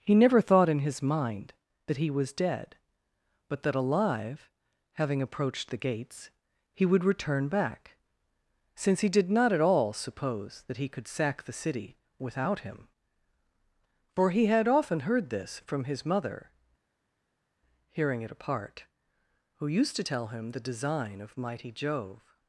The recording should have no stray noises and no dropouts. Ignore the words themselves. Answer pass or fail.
pass